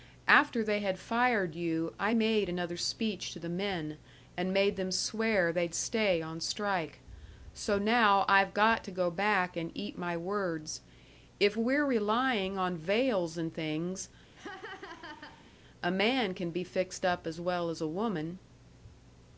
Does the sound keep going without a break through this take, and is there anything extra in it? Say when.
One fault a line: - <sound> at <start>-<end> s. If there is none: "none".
- laugh at 14.4-15.5 s